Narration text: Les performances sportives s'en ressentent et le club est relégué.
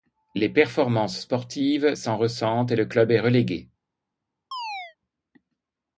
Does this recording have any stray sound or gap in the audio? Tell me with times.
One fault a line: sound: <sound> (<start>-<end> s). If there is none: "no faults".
sound: chirp (4.5-5.0 s)